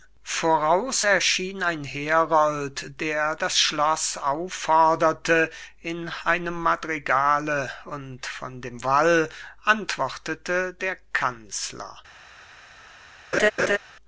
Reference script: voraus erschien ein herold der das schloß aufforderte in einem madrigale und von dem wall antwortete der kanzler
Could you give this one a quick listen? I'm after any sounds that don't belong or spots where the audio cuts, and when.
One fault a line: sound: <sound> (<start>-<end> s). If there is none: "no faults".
sound: laugh (13.3-13.8 s)